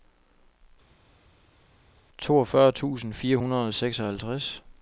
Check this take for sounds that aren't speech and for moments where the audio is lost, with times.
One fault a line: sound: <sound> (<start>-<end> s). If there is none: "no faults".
no faults